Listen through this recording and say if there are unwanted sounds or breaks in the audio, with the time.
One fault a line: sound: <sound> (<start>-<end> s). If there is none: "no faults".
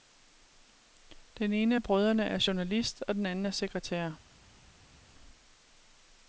no faults